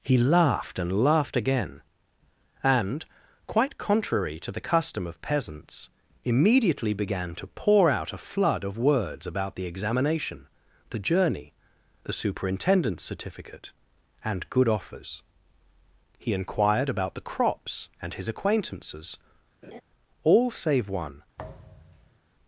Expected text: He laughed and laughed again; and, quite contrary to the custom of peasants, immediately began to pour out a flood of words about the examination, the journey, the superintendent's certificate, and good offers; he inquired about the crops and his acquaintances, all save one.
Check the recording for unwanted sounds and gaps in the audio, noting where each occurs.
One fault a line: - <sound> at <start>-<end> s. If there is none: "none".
- laugh at 19.6-19.8 s
- thud at 21.4-22.2 s